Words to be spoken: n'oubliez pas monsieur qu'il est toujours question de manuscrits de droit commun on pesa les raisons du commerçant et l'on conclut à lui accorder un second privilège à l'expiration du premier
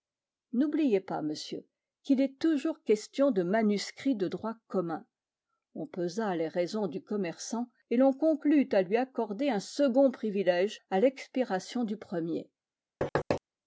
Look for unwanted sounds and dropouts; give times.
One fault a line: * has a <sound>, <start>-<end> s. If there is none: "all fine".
* has a thud, 13.0-13.4 s